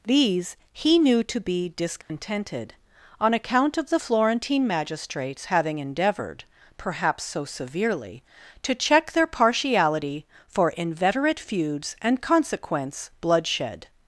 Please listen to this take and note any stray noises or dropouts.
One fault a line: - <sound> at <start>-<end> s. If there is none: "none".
- dropout at 2.0-2.1 s